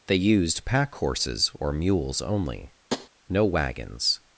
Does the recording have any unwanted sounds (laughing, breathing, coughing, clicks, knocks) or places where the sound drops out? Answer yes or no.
yes